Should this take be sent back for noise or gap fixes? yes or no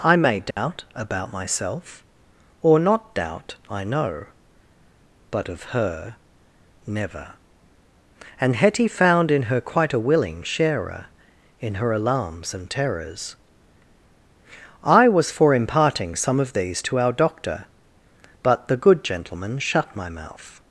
yes